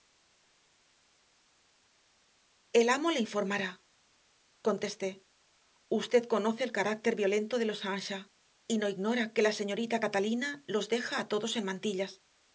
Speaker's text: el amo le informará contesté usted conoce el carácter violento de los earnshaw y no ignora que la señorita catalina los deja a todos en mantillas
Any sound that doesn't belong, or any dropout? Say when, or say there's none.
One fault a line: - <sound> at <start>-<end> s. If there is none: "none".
none